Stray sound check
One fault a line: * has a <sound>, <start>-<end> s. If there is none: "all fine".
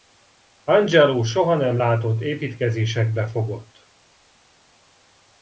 all fine